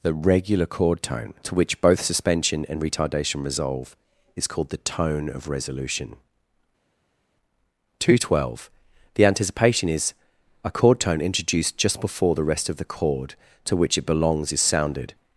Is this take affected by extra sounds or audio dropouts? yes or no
no